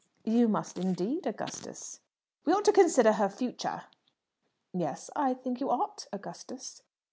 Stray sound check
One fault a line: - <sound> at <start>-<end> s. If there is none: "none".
none